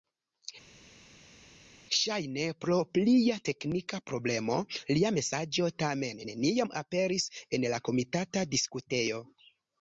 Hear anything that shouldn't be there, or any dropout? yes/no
no